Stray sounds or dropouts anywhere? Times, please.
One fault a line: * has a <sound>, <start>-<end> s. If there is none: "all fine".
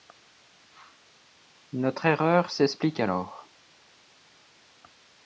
all fine